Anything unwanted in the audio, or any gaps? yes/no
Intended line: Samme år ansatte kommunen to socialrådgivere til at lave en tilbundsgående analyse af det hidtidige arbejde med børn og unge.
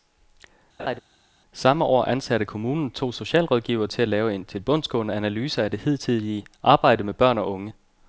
yes